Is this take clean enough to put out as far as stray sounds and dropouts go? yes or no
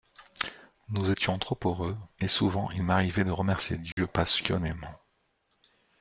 no